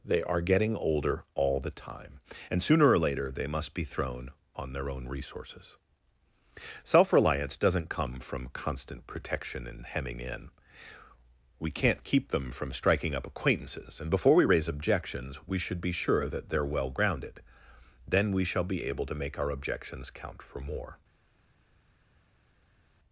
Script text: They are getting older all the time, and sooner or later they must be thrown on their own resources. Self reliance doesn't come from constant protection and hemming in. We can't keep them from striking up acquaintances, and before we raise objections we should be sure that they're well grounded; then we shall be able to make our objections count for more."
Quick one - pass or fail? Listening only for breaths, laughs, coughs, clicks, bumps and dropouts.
pass